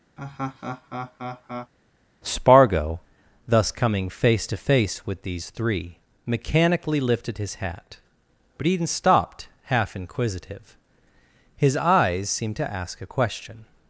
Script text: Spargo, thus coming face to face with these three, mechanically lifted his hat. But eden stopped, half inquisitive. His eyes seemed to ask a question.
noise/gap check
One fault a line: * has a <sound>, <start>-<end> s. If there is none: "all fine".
* has a laugh, 0.2-1.7 s